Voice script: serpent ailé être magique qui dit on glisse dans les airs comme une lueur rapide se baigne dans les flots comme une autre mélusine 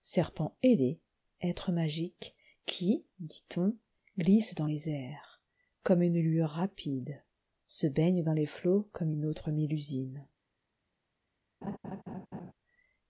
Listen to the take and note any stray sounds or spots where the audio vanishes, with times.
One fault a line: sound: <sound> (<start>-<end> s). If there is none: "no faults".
sound: laugh (11.6-12.5 s)